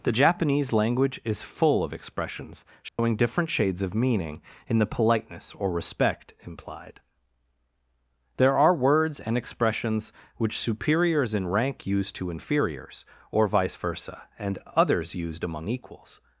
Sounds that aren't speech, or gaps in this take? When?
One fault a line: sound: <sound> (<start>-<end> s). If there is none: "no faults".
sound: dropout (2.9-3.0 s)